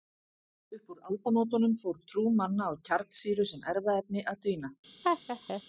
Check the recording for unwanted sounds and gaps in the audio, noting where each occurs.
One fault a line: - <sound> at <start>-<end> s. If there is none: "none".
- laugh at 5.0-5.6 s